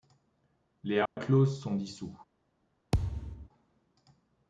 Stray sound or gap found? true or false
true